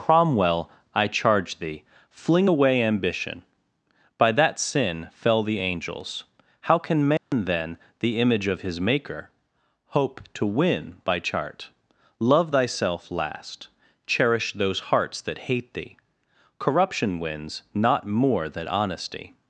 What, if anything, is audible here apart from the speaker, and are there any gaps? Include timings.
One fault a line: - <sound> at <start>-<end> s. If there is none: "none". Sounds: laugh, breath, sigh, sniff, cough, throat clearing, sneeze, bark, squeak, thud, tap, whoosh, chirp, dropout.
- dropout at 7.2-7.3 s